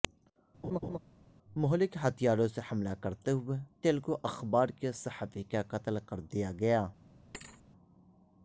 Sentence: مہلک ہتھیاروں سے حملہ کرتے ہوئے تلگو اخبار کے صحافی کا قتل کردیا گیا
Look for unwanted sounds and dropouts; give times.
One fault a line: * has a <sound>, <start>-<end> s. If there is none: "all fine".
* has a laugh, 0.6-1.0 s
* has a thud, 7.3-7.6 s